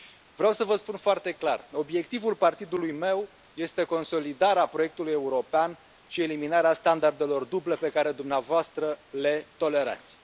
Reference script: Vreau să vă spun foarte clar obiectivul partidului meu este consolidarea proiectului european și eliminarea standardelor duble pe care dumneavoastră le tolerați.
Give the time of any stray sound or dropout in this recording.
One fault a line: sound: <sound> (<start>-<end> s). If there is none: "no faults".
no faults